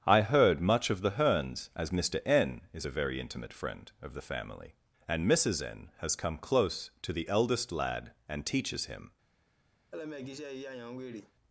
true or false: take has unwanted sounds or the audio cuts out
true